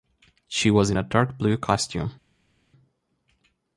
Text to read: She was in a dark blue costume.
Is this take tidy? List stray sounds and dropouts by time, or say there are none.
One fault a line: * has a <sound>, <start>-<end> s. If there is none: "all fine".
all fine